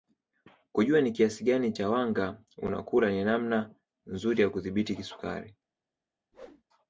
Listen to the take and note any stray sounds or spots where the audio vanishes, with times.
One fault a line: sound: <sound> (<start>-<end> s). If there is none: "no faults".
sound: whoosh (6.3-6.6 s)